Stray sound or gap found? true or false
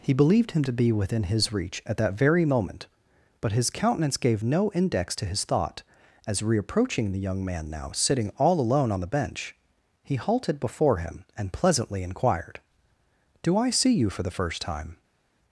false